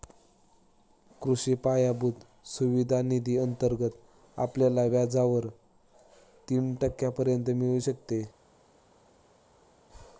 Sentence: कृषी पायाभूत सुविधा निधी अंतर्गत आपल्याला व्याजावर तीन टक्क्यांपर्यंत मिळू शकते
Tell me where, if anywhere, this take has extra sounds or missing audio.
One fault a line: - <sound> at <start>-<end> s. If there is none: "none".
none